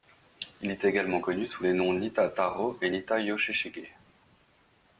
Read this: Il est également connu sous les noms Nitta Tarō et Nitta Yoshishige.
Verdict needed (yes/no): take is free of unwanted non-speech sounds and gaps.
yes